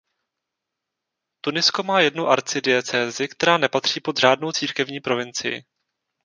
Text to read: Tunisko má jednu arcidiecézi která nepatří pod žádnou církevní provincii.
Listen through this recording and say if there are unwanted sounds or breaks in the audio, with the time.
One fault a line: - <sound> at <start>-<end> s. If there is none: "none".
none